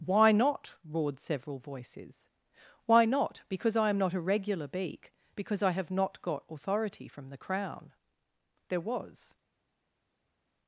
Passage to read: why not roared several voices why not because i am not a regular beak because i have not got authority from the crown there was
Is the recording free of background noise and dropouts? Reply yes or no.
yes